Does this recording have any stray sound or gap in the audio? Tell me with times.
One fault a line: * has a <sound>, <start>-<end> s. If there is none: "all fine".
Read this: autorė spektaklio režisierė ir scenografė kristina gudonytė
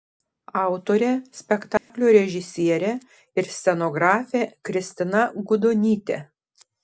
* has a dropout, 1.8-1.9 s